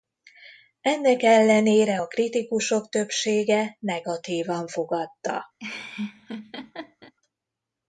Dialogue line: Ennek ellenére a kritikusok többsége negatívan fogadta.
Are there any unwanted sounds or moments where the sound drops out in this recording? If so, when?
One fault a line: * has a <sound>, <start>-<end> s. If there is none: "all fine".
* has a laugh, 5.6-7.1 s